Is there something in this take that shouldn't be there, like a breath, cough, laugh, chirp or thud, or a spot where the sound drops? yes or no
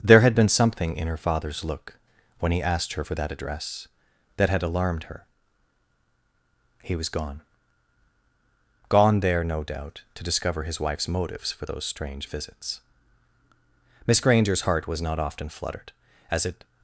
no